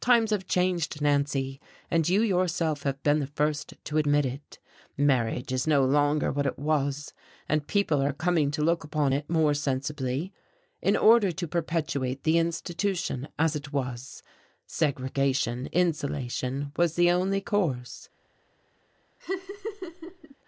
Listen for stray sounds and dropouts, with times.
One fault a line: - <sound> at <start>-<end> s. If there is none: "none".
- laugh at 19.2-20.3 s